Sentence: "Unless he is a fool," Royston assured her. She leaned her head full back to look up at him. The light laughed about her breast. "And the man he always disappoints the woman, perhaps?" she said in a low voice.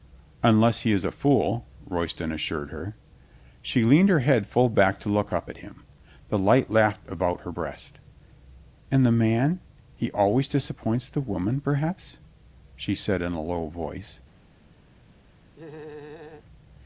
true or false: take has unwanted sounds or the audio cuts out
true